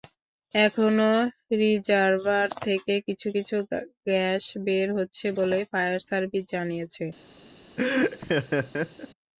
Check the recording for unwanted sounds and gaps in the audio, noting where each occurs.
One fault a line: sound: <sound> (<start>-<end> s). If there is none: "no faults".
sound: laugh (7.8-9.1 s)